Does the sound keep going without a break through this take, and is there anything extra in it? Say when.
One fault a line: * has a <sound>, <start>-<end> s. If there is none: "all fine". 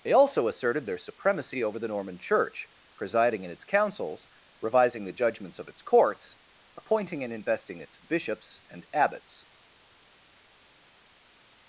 all fine